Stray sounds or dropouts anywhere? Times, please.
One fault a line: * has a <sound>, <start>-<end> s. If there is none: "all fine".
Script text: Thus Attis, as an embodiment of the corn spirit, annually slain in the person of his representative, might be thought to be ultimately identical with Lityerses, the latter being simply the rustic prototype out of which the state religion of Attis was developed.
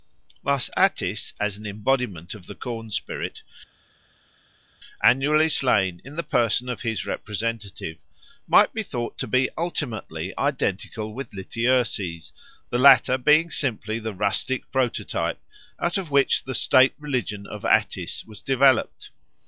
all fine